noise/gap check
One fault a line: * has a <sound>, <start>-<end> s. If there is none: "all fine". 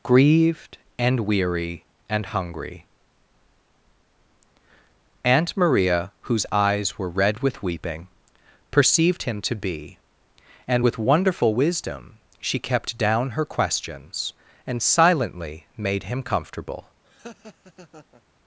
* has a laugh, 17.0-18.2 s